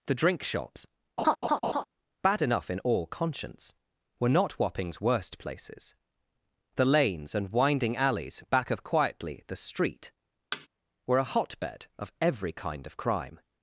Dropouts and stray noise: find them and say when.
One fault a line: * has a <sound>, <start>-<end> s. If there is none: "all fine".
* has a laugh, 1.2-1.8 s
* has a thud, 10.5-10.7 s